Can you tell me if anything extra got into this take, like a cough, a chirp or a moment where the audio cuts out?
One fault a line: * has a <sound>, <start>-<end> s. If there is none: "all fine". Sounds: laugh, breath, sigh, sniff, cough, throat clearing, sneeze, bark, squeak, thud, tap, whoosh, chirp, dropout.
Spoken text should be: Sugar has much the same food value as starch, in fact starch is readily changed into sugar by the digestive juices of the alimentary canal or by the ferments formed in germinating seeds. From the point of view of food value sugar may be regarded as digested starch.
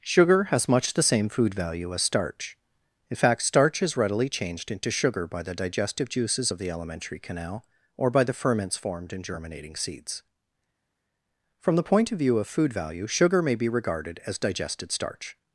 all fine